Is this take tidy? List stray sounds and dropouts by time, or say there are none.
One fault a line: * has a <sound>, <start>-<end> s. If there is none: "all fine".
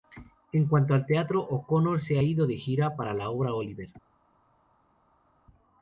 all fine